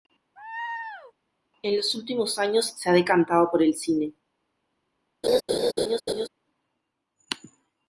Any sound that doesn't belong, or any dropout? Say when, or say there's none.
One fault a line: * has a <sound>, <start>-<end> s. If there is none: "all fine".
* has a laugh, 0.4-1.1 s
* has a laugh, 5.2-6.3 s